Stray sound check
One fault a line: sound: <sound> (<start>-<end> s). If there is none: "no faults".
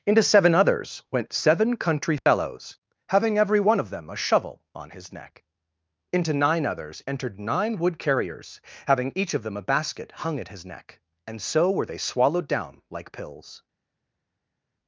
no faults